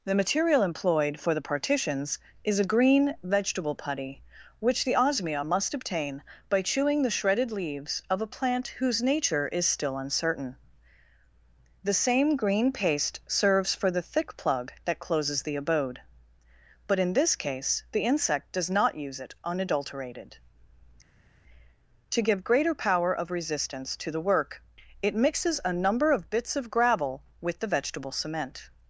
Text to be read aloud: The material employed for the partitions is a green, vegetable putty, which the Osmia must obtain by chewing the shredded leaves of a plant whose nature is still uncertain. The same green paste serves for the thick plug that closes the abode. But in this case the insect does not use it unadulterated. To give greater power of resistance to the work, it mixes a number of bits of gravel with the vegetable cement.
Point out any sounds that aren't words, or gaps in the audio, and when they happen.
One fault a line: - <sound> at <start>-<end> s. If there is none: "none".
none